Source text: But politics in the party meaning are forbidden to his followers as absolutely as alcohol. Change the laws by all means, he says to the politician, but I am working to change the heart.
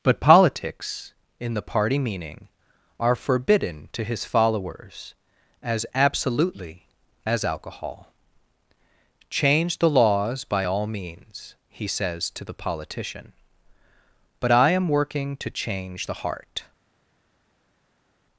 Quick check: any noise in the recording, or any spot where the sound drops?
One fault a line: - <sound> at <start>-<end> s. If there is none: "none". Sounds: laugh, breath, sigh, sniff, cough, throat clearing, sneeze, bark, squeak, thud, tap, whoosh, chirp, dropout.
none